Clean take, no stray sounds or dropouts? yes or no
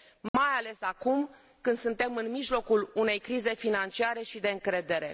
no